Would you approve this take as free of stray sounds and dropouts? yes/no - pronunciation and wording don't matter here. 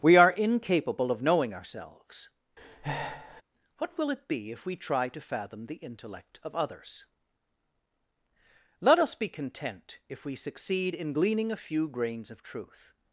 no